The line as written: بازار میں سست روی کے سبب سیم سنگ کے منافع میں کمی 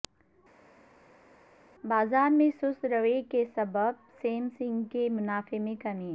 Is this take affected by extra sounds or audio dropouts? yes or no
no